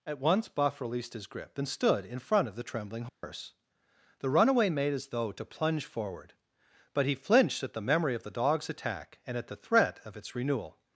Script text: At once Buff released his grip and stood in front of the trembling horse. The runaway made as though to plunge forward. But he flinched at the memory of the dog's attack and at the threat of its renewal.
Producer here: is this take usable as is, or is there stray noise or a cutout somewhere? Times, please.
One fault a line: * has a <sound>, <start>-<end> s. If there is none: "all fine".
* has a dropout, 3.1-3.2 s